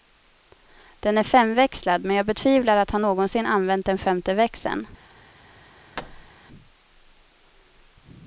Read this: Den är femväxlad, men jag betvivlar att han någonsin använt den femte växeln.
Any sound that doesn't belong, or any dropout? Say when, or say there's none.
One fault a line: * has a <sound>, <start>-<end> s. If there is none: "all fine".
* has a thud, 6.0-6.3 s